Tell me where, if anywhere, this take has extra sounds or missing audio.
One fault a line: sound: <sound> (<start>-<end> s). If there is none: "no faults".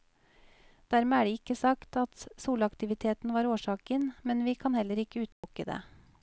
sound: dropout (5.3-5.4 s)